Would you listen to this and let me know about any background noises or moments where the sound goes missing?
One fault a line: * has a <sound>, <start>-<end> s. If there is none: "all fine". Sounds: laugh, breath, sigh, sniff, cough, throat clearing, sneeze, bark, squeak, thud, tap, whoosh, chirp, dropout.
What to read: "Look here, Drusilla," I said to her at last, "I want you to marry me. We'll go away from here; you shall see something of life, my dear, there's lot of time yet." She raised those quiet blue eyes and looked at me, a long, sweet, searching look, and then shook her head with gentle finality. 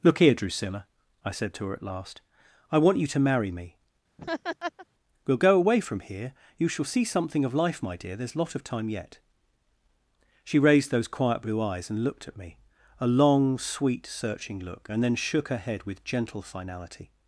* has a laugh, 4.2-4.9 s